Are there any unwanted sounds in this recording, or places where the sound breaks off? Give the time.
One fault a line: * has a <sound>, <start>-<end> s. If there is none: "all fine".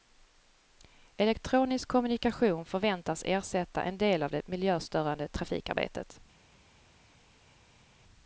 all fine